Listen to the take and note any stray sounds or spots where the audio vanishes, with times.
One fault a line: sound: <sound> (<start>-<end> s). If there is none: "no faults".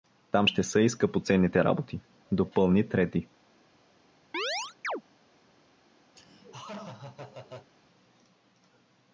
sound: chirp (4.3-5.0 s)
sound: laugh (6.2-7.7 s)